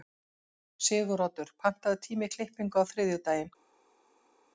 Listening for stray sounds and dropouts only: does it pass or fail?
pass